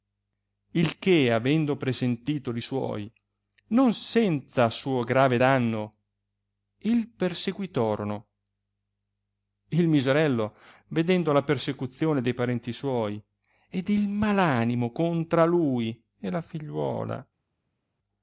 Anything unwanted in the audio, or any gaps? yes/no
no